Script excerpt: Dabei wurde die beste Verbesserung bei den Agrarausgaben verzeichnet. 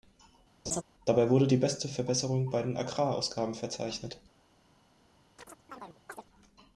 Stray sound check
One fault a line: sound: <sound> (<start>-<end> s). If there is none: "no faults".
sound: laugh (0.7-0.8 s)
sound: chirp (5.4-6.2 s)